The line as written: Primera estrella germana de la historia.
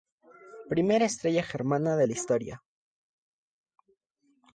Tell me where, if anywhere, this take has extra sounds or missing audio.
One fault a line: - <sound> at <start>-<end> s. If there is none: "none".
none